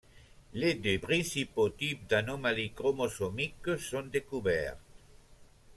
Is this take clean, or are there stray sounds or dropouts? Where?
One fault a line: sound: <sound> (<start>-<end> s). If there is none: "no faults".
no faults